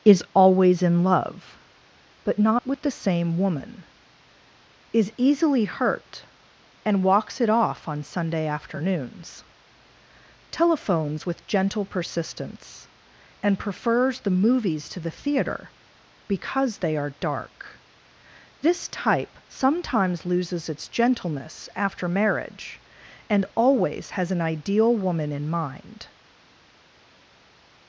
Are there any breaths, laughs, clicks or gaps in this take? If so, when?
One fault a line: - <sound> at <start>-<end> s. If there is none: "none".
none